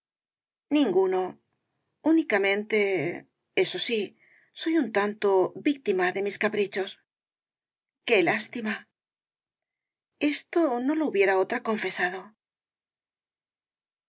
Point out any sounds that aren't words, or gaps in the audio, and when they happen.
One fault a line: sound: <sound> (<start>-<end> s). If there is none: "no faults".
no faults